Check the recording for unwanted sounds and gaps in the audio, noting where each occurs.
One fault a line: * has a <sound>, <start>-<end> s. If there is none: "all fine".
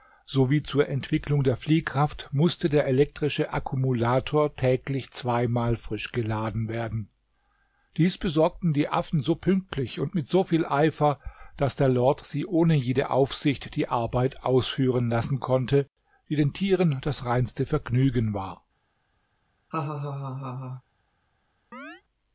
* has a laugh, 19.7-20.8 s
* has a chirp, 21.7-22.0 s